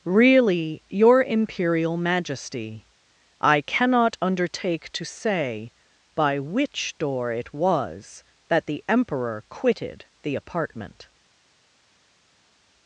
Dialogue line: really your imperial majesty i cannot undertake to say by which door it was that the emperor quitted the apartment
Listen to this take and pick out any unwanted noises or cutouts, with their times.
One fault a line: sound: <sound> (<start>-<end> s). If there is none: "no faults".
no faults